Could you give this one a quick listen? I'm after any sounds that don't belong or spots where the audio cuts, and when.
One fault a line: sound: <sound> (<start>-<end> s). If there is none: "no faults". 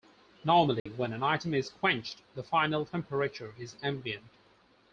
sound: dropout (0.8-0.9 s)